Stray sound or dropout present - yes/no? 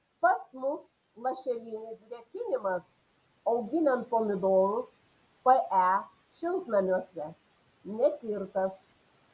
no